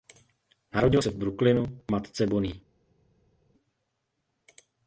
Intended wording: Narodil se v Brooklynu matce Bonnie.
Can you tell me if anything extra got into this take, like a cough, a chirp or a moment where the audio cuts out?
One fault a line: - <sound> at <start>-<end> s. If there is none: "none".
none